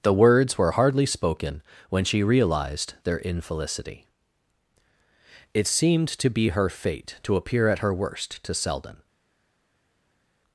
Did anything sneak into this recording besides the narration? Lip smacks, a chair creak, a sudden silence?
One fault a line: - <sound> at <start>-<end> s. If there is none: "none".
none